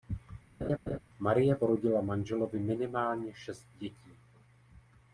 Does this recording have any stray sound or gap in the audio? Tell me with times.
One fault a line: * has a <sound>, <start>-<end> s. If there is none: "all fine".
* has a laugh, 0.6-1.0 s